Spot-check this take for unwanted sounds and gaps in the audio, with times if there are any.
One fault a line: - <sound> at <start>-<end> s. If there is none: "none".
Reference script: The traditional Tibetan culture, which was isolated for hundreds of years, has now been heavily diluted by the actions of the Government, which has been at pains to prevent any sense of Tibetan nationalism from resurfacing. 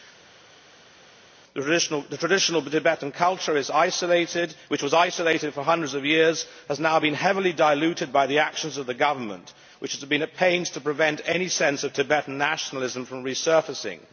none